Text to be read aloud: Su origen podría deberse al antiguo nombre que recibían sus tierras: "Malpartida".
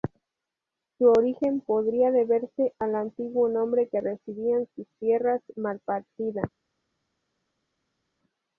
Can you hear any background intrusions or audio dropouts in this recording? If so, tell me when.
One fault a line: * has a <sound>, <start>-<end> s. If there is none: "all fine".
all fine